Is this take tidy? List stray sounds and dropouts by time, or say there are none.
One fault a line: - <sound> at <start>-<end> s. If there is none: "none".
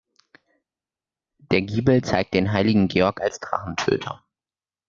none